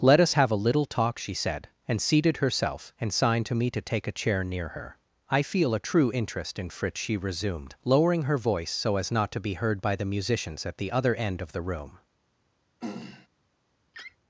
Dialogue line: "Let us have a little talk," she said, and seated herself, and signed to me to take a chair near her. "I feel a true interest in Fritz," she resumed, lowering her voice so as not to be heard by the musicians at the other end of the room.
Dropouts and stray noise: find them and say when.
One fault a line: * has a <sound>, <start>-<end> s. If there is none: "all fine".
* has a throat clearing, 12.8-13.3 s
* has a laugh, 13.9-14.2 s